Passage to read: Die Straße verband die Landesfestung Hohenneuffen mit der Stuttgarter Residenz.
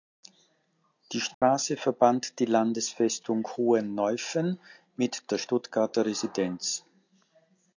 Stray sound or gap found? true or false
true